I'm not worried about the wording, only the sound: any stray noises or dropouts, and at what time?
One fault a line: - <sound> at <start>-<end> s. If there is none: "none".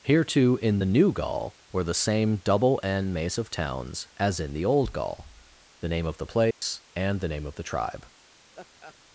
- dropout at 6.5-6.6 s
- laugh at 8.5-9.0 s